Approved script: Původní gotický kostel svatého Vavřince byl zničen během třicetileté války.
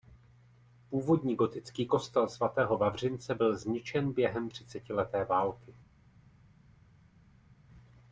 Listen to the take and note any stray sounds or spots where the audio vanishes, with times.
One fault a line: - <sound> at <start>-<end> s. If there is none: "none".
none